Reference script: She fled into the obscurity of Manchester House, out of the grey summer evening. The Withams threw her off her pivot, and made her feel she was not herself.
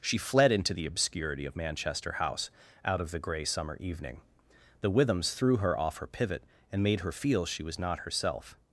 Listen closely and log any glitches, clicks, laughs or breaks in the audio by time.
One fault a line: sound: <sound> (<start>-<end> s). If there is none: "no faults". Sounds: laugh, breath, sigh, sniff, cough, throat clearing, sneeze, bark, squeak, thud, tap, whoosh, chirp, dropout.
no faults